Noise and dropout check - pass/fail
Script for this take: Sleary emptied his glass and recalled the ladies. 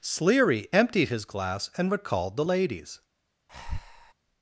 fail